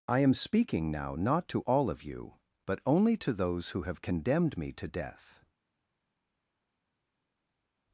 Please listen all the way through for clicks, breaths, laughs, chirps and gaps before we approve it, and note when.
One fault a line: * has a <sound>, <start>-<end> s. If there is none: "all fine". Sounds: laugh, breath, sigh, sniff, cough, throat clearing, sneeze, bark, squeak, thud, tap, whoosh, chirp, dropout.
all fine